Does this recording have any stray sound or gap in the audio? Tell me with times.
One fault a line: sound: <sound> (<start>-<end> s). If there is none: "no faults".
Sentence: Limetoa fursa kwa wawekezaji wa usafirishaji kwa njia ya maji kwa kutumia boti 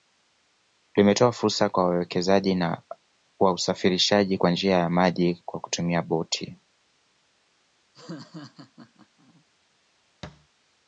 sound: laugh (7.9-9.4 s)
sound: thud (10.2-10.5 s)